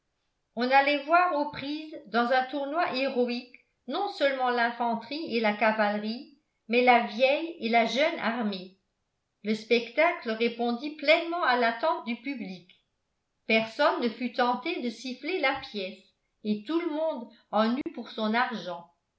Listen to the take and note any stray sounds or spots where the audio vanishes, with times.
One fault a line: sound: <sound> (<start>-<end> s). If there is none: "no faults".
sound: dropout (17.8-17.9 s)